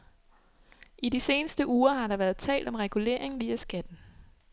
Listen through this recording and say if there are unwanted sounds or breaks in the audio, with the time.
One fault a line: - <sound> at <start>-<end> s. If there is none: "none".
none